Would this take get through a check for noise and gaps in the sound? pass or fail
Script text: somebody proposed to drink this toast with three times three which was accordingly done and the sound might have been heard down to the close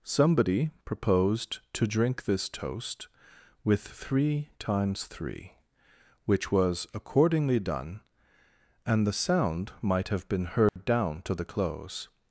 fail